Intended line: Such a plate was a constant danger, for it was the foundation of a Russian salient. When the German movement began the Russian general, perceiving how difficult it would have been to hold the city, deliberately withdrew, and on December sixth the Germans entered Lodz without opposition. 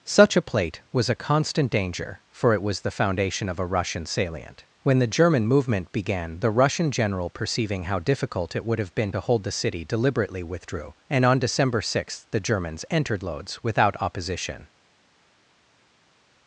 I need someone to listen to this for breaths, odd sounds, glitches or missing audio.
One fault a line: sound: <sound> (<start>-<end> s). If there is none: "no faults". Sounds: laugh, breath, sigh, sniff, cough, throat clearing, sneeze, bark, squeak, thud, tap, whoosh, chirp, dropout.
no faults